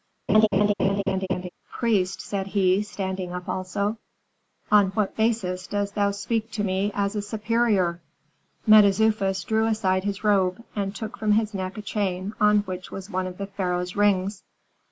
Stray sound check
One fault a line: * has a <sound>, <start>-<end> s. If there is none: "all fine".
* has a laugh, 0.3-1.5 s